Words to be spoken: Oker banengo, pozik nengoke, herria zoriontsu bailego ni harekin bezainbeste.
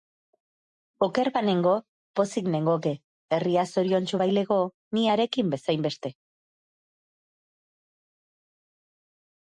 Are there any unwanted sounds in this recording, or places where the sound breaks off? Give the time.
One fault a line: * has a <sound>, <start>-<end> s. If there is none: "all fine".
all fine